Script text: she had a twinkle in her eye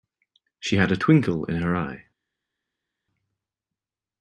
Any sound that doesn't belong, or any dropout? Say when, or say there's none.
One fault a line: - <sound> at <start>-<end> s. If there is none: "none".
none